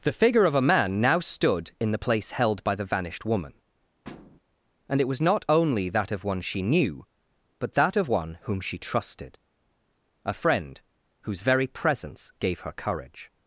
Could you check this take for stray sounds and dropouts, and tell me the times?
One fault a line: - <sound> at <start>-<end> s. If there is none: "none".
- thud at 4.0-4.4 s